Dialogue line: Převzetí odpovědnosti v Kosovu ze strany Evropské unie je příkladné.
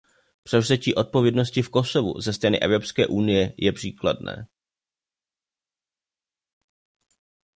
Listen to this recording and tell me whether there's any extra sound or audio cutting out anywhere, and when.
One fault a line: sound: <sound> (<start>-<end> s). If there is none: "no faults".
no faults